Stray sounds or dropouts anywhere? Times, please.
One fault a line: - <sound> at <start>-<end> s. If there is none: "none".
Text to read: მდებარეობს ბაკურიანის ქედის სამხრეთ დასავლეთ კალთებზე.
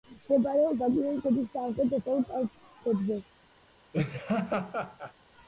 - laugh at 3.9-5.1 s